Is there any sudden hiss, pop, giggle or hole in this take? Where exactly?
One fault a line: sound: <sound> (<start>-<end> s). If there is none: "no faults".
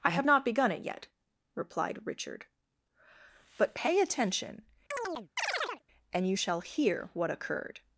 sound: chirp (4.9-5.8 s)